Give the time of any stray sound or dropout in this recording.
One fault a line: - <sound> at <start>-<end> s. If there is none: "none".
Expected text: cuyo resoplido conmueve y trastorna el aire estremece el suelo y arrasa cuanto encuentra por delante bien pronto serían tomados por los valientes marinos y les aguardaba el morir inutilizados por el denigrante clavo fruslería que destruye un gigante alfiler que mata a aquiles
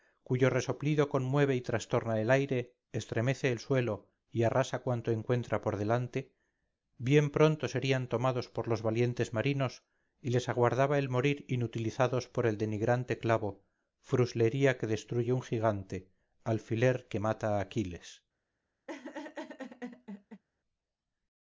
- laugh at 18.9-20.4 s